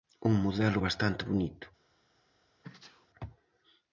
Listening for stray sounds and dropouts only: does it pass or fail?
fail